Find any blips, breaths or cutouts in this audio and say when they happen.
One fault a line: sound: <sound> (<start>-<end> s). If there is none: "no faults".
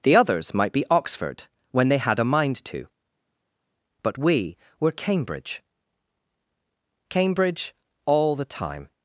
no faults